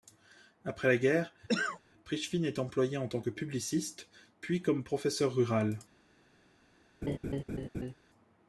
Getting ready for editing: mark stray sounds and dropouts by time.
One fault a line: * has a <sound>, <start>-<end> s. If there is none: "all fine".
* has a cough, 1.5-1.8 s
* has a laugh, 7.0-7.9 s